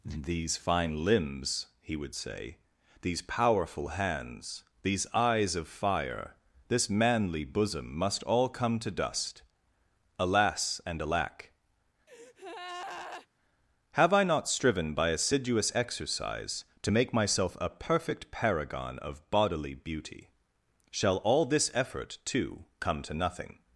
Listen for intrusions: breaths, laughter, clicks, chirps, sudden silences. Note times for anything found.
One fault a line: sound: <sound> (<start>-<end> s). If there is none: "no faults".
sound: breath (12.1-13.3 s)